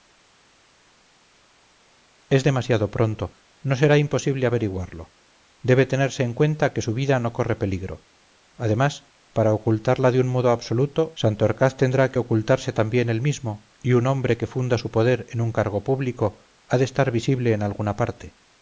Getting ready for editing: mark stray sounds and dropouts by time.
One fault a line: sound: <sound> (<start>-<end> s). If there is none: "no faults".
no faults